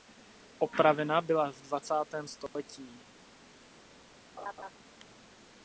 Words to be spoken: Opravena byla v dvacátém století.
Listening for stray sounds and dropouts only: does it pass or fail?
fail